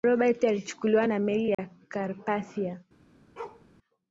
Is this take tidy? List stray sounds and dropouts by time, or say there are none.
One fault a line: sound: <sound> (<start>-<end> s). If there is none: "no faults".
sound: dropout (1.5-1.6 s)
sound: bark (3.4-3.7 s)